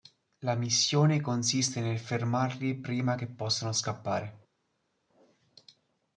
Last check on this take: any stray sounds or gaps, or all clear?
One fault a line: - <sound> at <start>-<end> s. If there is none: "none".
none